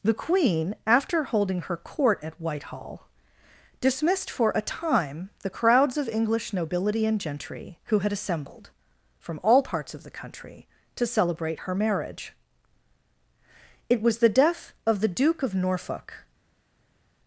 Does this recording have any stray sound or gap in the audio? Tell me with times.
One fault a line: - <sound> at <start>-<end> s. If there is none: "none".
none